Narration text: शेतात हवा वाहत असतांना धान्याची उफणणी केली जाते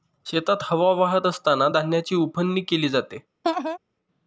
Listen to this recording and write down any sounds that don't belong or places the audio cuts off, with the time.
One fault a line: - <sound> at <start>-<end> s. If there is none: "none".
- laugh at 3.4-3.8 s